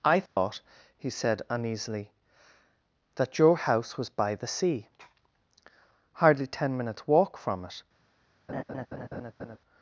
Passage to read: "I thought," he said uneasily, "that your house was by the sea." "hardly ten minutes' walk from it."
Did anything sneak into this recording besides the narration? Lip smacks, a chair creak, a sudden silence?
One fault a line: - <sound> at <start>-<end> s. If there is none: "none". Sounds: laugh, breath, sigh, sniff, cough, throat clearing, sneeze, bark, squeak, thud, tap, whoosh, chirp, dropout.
- dropout at 0.3-0.4 s
- laugh at 8.5-9.6 s